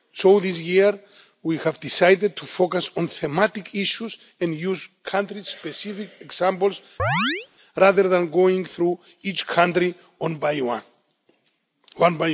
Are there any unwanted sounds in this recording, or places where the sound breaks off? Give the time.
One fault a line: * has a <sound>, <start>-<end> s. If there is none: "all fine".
* has a chirp, 7.0-7.5 s